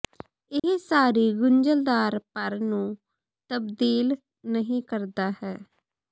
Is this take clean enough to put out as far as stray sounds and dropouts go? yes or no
no